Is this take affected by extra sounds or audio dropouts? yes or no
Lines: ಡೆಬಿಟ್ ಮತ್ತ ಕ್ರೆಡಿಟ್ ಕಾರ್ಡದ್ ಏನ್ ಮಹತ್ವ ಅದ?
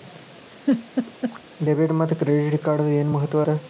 yes